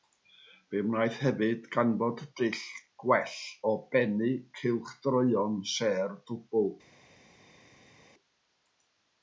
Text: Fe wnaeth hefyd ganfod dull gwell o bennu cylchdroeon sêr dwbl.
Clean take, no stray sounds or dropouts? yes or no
yes